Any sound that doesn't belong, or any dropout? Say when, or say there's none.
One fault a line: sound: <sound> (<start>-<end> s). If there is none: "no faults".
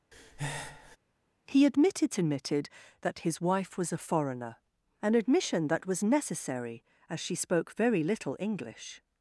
sound: breath (0.1-1.0 s)